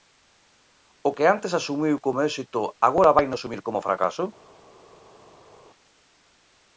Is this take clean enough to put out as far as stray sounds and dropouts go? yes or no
yes